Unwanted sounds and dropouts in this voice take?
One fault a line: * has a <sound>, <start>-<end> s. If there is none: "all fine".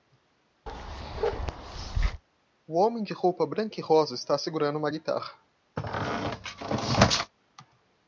* has a bark, 0.7-2.2 s
* has a squeak, 5.8-7.3 s